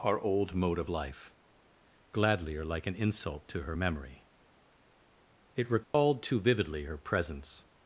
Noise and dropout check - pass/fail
fail